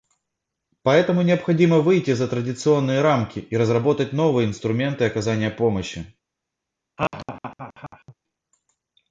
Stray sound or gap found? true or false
true